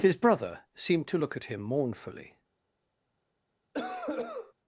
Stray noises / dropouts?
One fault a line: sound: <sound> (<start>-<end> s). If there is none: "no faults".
sound: cough (3.7-4.5 s)